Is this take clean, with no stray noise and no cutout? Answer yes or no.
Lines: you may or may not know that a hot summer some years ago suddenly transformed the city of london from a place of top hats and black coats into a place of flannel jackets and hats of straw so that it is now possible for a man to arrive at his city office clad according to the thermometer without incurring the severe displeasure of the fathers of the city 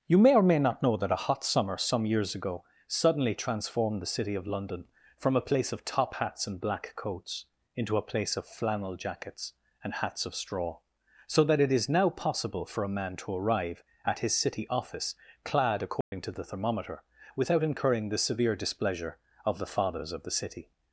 no